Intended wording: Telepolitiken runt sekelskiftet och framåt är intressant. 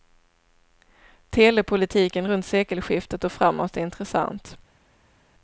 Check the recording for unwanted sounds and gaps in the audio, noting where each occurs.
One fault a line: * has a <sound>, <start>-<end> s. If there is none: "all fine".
all fine